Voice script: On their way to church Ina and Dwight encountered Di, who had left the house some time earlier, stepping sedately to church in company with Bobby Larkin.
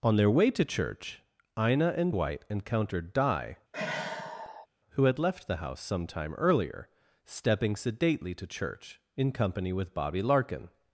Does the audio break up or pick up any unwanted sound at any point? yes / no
yes